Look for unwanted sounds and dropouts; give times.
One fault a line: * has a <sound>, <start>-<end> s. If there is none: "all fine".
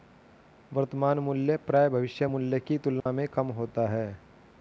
* has a dropout, 3.0-3.1 s